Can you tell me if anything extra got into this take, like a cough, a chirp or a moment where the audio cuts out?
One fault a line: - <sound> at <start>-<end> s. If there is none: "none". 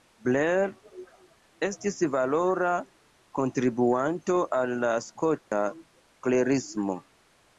- dropout at 5.4-5.5 s